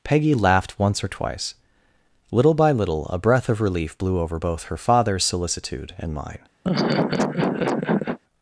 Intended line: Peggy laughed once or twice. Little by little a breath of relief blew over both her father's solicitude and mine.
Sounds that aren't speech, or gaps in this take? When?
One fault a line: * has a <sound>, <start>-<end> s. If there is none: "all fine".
* has a laugh, 6.6-8.2 s